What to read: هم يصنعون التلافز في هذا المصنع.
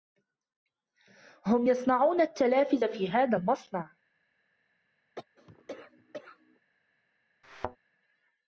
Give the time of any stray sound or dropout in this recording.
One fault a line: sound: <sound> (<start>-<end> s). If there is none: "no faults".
sound: cough (5.1-6.6 s)
sound: thud (7.4-7.8 s)